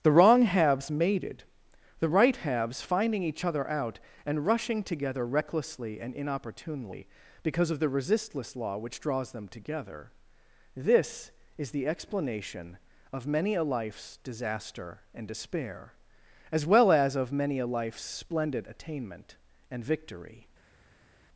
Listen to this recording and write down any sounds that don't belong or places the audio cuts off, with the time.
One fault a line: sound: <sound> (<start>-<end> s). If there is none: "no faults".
no faults